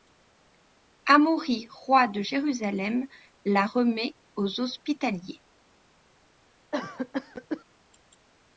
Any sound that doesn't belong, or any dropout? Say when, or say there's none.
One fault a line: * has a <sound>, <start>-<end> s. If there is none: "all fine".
* has a cough, 6.7-7.6 s